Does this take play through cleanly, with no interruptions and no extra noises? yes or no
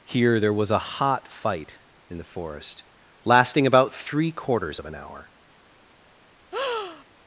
no